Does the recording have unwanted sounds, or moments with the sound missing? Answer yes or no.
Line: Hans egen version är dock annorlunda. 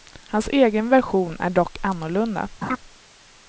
yes